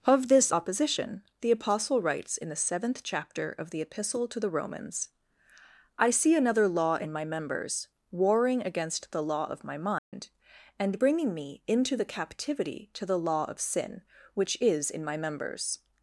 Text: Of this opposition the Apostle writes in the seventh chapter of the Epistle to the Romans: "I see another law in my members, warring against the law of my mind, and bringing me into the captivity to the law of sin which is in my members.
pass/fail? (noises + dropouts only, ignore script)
fail